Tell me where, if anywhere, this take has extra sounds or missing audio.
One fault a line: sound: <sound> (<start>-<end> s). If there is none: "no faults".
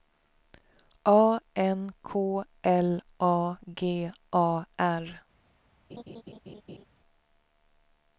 sound: laugh (5.9-6.9 s)